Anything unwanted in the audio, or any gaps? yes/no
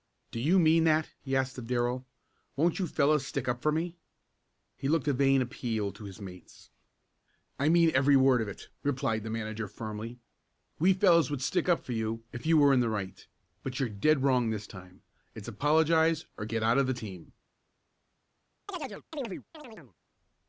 yes